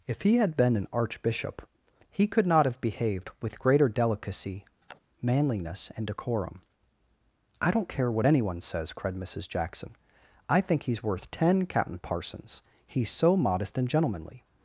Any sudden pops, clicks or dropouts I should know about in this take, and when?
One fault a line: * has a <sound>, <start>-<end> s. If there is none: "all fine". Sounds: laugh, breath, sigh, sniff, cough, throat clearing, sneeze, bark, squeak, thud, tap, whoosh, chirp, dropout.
* has a sniff, 4.8-5.0 s